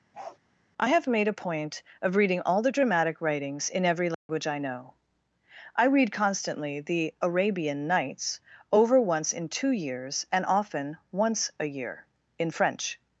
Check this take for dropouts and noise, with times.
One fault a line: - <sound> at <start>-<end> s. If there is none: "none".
- bark at 0.1-0.4 s
- dropout at 4.1-4.3 s